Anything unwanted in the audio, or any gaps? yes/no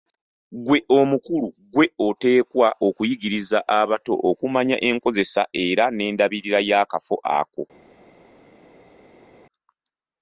no